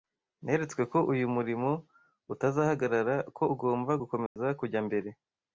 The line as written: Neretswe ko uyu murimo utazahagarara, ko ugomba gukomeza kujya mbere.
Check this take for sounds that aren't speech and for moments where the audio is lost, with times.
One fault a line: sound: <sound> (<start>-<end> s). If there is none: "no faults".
sound: dropout (4.3-4.4 s)